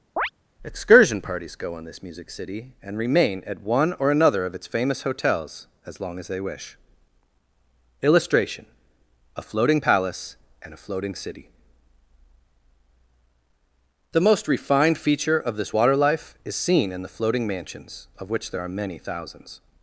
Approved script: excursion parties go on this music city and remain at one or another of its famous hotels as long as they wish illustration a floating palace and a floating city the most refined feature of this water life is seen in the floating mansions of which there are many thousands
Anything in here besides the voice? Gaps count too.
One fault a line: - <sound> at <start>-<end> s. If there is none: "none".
- chirp at 0.2-0.3 s